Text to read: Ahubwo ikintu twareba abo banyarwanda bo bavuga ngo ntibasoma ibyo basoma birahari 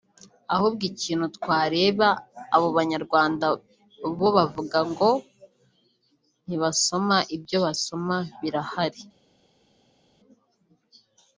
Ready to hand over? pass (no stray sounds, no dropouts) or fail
pass